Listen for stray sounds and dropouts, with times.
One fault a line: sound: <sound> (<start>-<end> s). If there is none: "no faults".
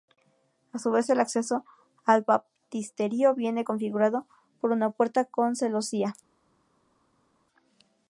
no faults